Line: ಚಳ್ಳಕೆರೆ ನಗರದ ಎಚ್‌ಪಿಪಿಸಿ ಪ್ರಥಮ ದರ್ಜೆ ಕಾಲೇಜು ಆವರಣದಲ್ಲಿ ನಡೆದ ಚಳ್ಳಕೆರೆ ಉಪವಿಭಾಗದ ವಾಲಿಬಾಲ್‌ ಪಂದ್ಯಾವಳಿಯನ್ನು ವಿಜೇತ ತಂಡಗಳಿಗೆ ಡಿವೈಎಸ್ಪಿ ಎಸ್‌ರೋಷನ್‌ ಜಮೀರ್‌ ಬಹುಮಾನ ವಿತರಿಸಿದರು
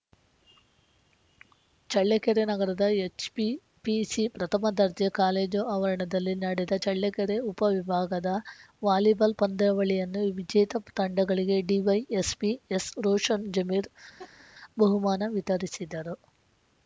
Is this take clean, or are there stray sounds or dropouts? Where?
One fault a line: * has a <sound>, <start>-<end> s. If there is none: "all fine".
* has a laugh, 14.2-14.5 s